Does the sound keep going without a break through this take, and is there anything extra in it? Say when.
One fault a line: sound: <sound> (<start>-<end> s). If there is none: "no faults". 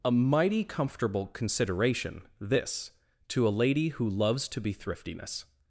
no faults